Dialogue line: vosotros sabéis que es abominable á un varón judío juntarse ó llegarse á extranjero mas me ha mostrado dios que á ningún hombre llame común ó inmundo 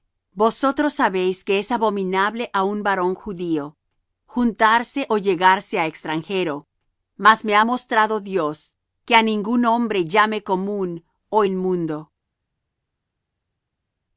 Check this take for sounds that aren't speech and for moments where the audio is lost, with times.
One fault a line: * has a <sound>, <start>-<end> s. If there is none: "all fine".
all fine